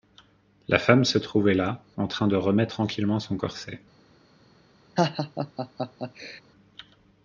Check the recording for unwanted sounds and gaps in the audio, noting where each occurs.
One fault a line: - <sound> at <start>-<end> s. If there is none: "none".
- laugh at 5.0-6.4 s